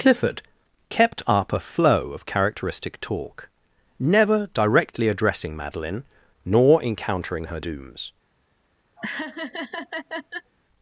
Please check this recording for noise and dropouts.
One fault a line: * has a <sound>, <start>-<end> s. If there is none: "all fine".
* has a laugh, 9.0-10.5 s